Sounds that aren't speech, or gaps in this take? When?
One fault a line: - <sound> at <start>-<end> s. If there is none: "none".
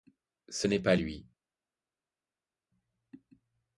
none